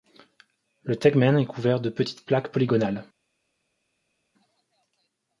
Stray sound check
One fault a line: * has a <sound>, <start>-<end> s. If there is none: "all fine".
all fine